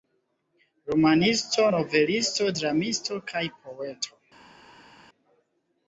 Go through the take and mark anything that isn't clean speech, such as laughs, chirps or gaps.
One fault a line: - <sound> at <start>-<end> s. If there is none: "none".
none